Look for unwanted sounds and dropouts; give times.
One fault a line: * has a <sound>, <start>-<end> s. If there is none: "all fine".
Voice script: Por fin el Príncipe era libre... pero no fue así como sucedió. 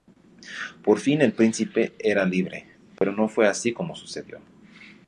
* has a dropout, 3.0-3.0 s